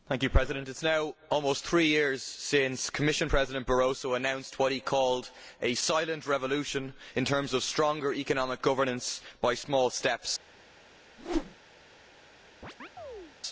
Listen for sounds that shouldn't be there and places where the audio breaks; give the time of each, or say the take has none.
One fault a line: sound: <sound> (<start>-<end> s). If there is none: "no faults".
sound: whoosh (11.2-11.5 s)
sound: chirp (12.6-13.3 s)